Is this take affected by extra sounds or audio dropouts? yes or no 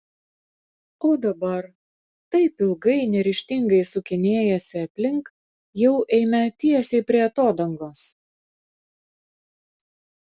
no